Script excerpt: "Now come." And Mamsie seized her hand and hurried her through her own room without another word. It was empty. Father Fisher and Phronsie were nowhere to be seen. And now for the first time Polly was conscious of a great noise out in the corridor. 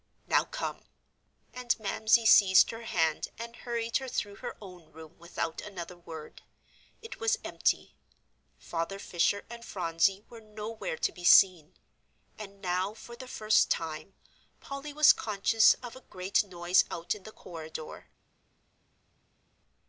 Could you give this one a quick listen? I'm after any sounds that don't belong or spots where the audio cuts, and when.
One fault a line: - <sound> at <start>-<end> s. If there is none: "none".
none